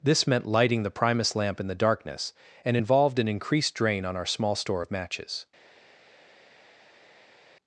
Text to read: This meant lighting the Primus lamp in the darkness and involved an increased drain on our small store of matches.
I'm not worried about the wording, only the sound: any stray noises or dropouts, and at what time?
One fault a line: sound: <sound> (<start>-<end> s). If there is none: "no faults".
no faults